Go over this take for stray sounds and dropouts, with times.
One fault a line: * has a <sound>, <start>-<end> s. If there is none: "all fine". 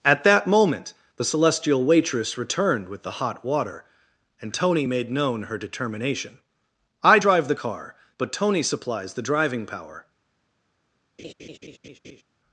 * has a laugh, 11.2-12.2 s